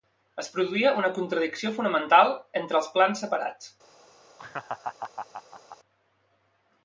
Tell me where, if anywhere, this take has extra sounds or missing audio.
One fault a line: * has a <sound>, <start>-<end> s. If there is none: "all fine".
* has a laugh, 4.4-5.8 s